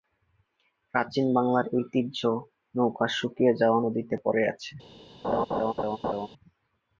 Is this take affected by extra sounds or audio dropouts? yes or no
yes